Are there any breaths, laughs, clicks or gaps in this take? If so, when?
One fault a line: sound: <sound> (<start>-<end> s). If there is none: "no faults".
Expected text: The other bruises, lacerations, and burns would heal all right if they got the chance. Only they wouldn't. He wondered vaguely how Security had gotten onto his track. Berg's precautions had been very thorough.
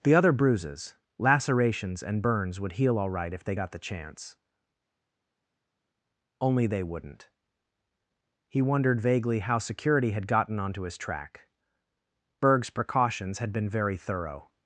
no faults